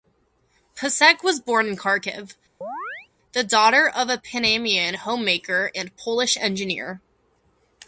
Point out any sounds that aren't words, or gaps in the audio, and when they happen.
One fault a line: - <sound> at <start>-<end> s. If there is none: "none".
- chirp at 2.6-3.1 s